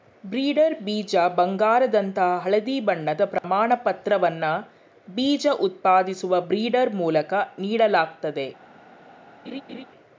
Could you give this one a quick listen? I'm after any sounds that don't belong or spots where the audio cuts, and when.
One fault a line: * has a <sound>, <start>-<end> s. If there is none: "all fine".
* has a dropout, 3.4-3.4 s
* has a laugh, 9.4-9.8 s